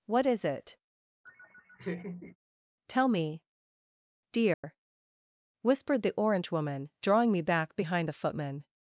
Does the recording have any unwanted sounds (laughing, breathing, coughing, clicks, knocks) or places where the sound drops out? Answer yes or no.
yes